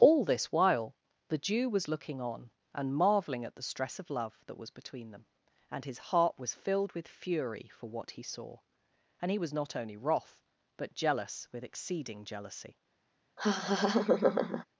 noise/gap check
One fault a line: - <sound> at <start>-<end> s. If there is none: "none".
- laugh at 13.4-14.7 s